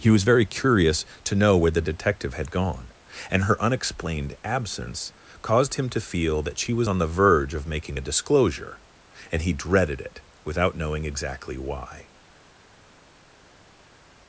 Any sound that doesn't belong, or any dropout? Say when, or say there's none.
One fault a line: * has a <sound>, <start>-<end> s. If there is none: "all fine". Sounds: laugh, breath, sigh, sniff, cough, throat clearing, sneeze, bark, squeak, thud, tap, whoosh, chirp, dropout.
all fine